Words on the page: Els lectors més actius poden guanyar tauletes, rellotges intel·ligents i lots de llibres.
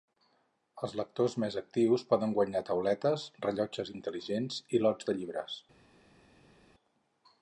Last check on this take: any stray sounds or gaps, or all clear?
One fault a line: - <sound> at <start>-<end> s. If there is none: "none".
none